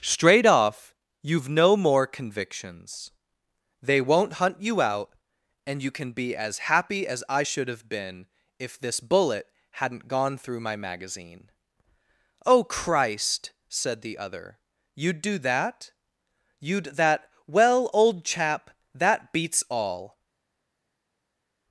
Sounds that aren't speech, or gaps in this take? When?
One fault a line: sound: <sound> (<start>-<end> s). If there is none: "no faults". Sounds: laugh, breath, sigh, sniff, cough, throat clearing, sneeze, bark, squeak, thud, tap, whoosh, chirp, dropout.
no faults